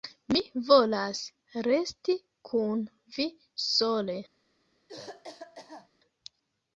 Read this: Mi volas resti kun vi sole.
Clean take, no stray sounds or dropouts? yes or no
no